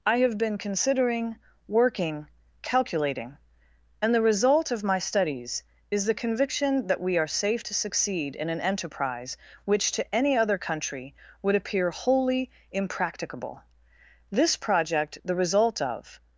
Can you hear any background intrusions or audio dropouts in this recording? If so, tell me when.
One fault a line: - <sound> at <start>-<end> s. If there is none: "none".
none